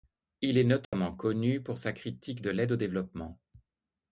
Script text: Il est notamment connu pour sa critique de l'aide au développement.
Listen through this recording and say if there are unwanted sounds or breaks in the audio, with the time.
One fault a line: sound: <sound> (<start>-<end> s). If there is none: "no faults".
sound: dropout (0.8-0.9 s)